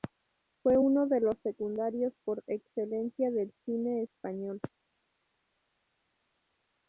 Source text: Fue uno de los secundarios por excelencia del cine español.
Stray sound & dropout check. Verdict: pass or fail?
pass